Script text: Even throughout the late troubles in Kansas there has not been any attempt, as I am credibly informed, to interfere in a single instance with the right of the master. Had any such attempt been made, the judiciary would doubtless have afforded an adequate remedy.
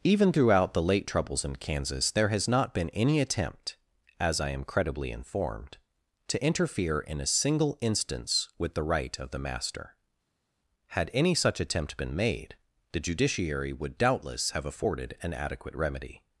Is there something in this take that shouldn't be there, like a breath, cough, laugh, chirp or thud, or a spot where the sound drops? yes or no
no